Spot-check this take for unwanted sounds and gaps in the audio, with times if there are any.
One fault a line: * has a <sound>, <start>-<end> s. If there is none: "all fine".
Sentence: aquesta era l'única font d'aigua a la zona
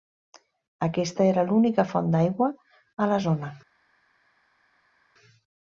all fine